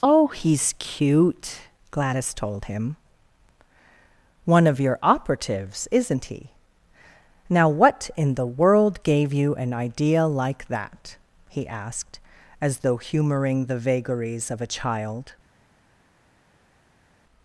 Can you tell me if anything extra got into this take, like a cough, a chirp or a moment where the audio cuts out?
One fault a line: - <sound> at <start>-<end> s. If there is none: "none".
none